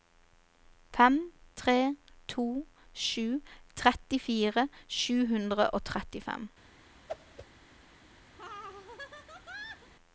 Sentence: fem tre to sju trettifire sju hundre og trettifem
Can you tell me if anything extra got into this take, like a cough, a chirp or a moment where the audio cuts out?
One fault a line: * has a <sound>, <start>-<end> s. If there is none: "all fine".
* has a whoosh, 7.1-7.5 s
* has a laugh, 8.4-9.9 s